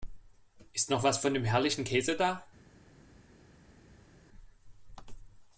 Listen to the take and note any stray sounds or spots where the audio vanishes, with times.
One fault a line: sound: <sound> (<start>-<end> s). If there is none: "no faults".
no faults